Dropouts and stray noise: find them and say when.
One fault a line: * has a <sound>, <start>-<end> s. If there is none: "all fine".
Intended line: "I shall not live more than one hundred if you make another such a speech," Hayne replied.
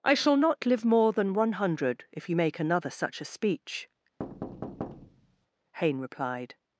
* has a thud, 4.2-5.5 s